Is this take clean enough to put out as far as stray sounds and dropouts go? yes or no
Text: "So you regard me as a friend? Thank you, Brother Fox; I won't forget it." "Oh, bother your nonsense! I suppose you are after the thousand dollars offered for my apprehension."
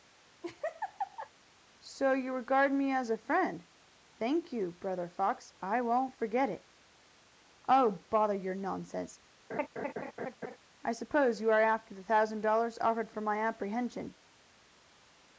no